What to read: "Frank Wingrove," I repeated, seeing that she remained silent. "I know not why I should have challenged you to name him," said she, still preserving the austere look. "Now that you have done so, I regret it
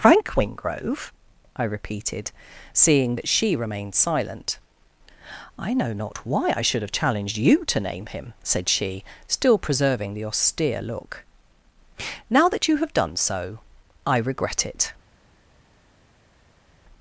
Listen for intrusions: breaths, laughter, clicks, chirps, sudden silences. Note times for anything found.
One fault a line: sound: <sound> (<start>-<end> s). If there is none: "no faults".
no faults